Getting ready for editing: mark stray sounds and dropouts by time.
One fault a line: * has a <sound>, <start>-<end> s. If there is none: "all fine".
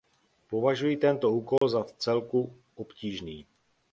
* has a dropout, 1.6-1.6 s